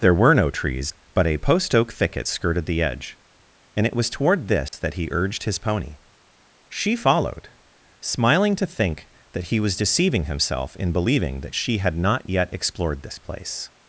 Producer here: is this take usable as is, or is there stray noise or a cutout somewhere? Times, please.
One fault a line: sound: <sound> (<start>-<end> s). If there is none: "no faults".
sound: dropout (4.7-4.7 s)